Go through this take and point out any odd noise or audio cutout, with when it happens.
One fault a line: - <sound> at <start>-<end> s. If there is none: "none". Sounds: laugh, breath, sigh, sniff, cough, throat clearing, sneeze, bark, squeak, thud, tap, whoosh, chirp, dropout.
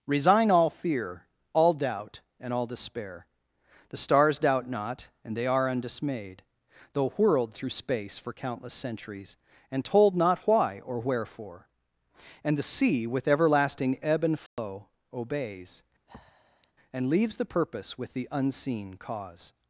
- dropout at 14.5-14.6 s
- breath at 16.1-16.7 s